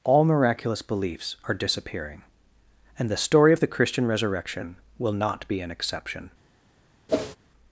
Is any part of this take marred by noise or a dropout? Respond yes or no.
yes